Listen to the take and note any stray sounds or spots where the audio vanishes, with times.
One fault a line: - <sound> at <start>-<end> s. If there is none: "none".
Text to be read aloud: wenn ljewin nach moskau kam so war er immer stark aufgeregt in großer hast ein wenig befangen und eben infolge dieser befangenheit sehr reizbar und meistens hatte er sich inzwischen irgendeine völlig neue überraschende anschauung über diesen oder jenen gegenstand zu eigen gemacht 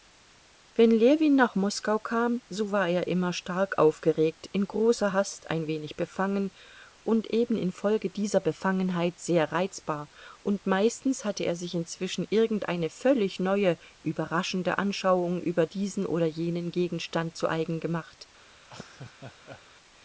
- laugh at 18.6-19.6 s